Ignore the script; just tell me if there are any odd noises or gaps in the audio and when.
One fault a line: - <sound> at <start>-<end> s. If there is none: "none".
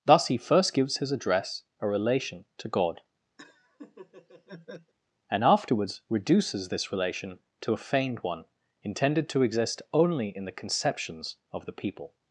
- laugh at 3.4-4.9 s